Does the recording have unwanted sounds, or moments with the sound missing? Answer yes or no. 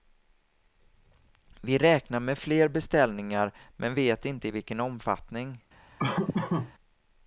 yes